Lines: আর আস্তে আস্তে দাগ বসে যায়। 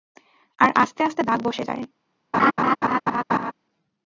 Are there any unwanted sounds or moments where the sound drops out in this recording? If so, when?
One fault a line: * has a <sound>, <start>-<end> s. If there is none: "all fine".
* has a laugh, 2.3-3.5 s